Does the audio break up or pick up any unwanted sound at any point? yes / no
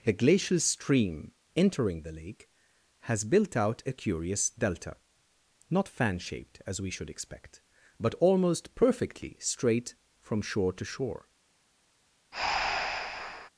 yes